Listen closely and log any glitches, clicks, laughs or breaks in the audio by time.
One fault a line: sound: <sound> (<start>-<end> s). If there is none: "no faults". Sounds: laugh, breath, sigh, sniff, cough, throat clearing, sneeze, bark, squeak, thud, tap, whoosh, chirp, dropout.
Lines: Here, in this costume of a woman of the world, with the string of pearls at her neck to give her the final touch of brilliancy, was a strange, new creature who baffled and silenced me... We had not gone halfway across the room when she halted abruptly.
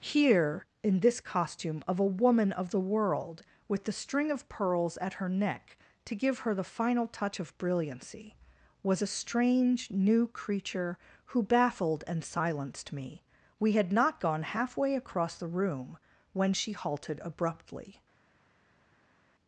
no faults